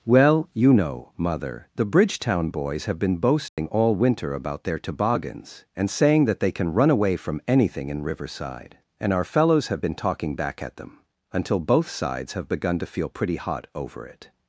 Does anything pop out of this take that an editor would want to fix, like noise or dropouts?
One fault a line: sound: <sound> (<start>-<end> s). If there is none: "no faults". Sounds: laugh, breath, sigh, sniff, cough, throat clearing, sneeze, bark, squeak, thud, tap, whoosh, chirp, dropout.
sound: dropout (3.5-3.6 s)